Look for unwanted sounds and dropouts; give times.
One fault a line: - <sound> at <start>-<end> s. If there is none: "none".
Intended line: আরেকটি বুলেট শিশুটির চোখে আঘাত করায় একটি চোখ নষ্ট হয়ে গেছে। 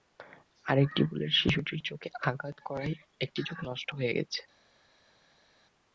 none